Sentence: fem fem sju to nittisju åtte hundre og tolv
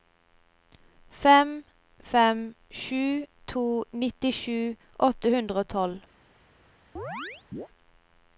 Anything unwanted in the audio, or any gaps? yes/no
yes